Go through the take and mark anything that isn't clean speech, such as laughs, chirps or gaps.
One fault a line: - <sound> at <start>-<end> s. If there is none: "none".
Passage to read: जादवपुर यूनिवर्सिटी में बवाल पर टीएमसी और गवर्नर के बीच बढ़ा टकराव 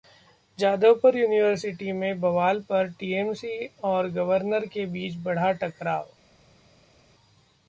none